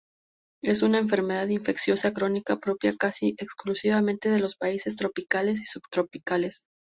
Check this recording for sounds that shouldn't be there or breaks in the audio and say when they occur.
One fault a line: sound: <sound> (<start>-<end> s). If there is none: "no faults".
no faults